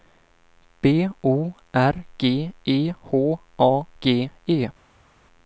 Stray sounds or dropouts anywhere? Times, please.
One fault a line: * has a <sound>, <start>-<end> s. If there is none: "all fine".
all fine